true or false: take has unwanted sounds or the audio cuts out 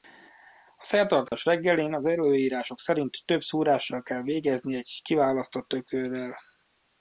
true